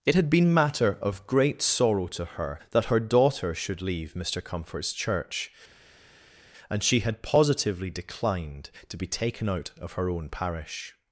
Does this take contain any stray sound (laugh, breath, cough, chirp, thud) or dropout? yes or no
no